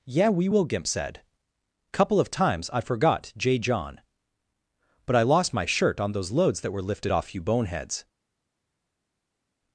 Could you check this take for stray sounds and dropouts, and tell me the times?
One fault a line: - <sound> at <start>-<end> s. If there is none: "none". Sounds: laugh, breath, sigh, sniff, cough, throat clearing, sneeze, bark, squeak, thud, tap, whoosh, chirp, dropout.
none